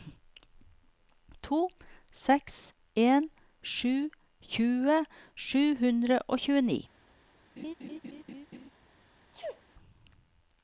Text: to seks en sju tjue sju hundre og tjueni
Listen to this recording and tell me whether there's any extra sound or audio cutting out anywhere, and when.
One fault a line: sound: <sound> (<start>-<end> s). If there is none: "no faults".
sound: laugh (7.6-8.7 s)
sound: sneeze (9.3-9.6 s)